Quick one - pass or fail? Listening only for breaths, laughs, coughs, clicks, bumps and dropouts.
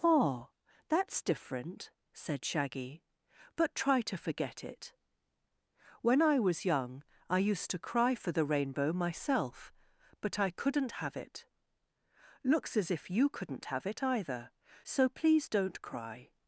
pass